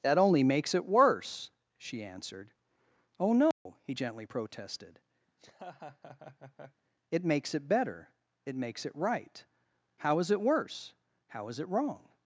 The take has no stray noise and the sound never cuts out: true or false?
false